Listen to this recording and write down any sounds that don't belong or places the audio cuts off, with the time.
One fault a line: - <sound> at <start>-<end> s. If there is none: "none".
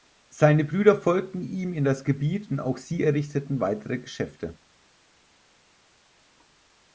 none